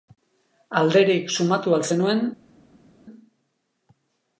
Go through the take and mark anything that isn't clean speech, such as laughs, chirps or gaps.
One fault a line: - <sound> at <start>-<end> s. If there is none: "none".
none